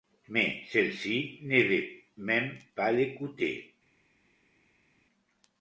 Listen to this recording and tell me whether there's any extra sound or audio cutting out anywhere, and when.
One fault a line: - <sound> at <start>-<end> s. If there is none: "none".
none